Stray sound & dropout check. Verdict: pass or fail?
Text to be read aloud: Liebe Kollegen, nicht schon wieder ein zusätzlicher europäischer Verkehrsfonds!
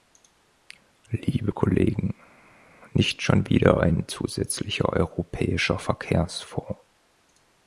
pass